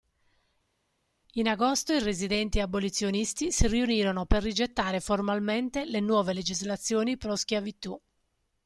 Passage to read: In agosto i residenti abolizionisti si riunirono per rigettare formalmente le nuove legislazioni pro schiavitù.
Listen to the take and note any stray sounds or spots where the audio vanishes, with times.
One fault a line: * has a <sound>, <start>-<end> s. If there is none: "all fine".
all fine